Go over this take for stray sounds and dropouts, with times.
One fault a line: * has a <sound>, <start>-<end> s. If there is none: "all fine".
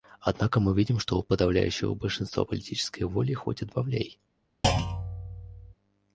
* has a thud, 4.6-5.7 s